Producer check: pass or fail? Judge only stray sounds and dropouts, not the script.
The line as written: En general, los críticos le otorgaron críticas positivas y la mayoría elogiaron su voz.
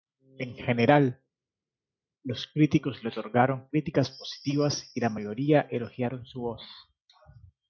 pass